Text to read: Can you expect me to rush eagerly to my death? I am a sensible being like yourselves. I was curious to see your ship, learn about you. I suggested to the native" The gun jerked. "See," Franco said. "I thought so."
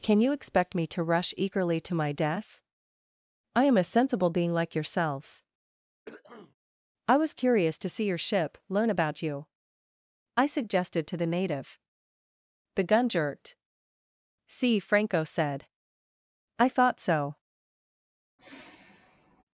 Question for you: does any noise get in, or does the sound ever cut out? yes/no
yes